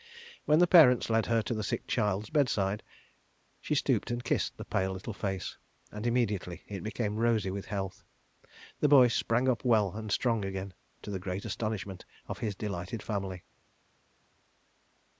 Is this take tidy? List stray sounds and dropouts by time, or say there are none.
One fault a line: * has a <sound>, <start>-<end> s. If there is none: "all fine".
all fine